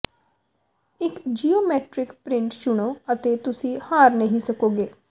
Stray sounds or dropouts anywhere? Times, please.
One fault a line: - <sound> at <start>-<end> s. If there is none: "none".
none